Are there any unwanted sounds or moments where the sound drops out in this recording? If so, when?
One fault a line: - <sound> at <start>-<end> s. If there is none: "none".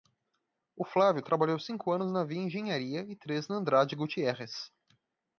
none